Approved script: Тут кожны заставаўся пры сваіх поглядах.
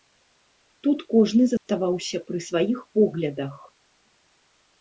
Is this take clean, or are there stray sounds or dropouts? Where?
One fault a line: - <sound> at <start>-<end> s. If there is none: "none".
- dropout at 1.6-1.7 s